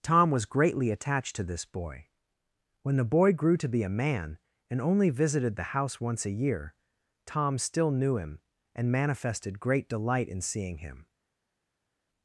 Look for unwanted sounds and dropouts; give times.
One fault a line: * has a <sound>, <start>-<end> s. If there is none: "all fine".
all fine